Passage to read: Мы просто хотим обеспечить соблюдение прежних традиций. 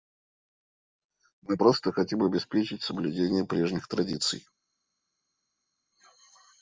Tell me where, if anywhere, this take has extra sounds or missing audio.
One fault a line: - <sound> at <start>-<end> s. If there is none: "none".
none